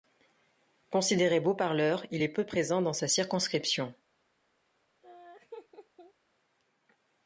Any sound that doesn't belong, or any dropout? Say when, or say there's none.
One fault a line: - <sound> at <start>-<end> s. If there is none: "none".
- laugh at 5.0-6.1 s